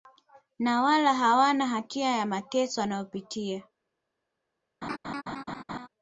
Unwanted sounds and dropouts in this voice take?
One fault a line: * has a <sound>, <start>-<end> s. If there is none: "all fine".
* has a laugh, 4.8-5.9 s